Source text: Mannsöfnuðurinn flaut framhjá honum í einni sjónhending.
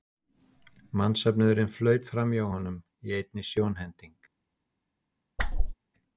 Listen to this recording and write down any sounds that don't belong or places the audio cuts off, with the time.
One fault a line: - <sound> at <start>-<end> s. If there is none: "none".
- whoosh at 5.4-5.7 s